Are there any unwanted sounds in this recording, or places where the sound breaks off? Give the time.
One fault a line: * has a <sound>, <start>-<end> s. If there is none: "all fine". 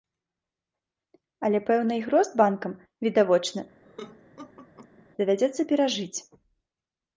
* has a laugh, 3.8-5.1 s